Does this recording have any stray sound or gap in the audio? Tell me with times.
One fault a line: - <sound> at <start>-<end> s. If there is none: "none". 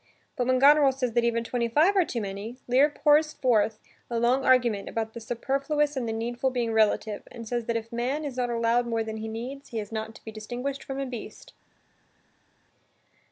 none